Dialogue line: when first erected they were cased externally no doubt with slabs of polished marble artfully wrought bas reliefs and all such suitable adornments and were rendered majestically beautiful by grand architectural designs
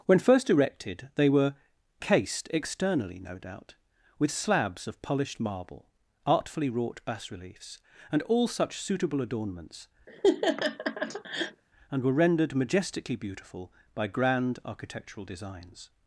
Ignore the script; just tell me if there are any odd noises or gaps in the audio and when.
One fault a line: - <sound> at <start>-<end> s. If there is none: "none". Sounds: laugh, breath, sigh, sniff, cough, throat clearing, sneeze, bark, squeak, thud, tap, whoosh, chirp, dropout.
- laugh at 10.1-11.6 s